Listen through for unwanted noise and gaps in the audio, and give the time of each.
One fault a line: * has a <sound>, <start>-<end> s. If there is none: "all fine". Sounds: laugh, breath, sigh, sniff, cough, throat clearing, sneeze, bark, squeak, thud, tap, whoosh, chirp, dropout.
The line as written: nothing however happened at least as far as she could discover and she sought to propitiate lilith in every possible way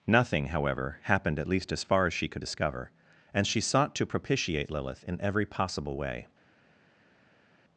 all fine